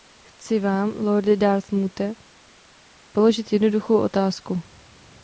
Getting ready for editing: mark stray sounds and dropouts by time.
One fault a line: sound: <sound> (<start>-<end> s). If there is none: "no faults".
no faults